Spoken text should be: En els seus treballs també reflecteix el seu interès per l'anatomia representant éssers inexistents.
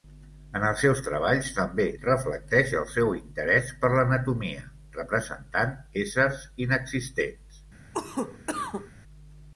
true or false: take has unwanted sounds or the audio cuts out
true